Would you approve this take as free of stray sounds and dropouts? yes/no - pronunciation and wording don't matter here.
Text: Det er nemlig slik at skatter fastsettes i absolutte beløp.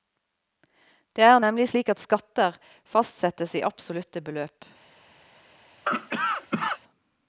no